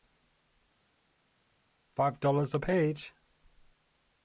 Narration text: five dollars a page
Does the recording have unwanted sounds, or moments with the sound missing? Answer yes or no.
no